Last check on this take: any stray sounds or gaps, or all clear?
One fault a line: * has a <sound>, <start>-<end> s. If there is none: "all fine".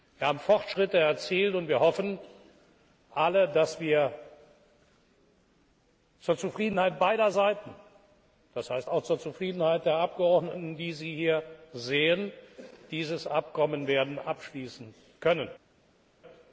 all fine